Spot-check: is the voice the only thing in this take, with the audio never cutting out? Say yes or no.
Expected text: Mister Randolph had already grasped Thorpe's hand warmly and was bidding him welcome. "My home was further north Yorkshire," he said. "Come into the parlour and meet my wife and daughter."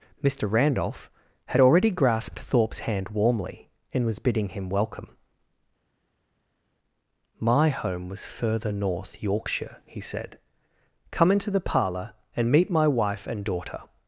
yes